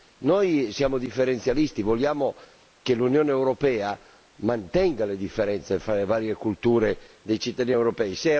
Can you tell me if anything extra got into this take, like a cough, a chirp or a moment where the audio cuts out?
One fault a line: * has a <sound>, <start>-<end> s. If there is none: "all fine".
all fine